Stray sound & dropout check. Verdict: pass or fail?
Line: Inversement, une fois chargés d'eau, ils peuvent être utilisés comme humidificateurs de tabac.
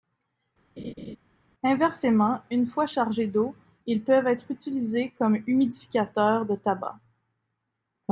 fail